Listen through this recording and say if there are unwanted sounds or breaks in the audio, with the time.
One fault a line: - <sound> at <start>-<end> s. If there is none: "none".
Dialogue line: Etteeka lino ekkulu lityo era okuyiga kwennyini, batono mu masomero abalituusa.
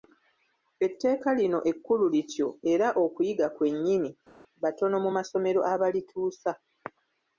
none